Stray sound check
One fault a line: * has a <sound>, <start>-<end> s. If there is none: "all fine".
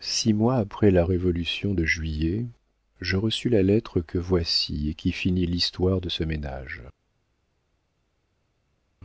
all fine